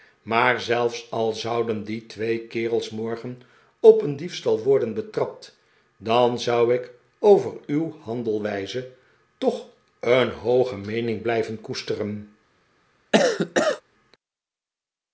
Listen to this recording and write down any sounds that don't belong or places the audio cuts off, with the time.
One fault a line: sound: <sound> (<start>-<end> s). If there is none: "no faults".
sound: cough (13.1-13.8 s)